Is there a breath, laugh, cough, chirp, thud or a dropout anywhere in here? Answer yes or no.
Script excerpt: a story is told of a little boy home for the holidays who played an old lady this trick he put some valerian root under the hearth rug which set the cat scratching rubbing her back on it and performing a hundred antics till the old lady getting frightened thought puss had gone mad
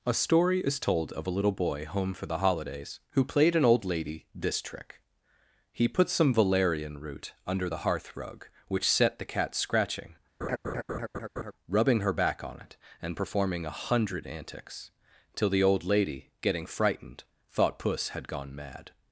yes